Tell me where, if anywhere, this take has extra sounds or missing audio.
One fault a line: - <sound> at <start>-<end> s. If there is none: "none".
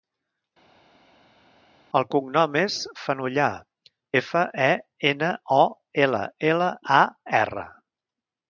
none